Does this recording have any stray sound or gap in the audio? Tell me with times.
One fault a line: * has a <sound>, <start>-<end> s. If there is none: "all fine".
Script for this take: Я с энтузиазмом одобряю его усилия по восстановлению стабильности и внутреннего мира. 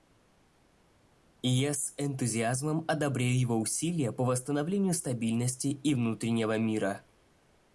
all fine